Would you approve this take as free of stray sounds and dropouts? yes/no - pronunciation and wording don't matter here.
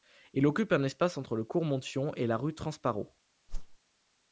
no